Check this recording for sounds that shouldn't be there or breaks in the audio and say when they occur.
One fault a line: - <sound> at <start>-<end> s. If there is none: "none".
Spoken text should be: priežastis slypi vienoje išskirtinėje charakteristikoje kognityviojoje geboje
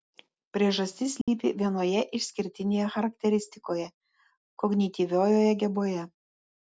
- dropout at 1.2-1.3 s